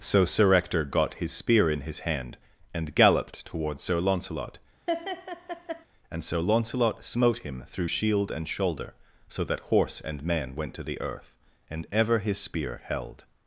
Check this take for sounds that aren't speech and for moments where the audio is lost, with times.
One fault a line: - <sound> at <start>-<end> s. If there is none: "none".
- laugh at 4.9-5.8 s